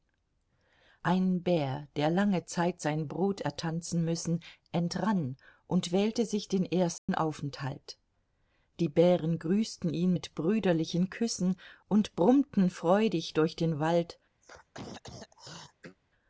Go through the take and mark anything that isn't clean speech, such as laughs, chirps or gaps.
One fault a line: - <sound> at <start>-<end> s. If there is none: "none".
- dropout at 7.0-7.1 s
- throat clearing at 14.4-16.0 s